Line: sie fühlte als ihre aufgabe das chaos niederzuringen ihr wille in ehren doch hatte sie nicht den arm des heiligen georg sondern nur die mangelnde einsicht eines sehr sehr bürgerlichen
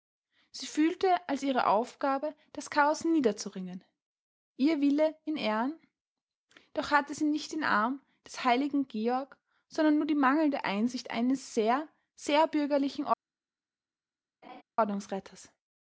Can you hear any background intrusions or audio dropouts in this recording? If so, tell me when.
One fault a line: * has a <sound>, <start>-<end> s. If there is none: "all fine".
* has a laugh, 14.4-14.6 s